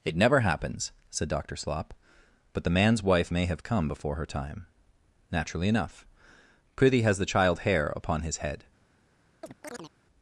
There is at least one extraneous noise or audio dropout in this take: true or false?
true